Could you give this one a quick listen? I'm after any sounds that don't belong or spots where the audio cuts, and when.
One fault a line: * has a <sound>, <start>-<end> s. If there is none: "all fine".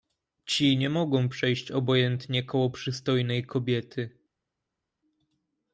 all fine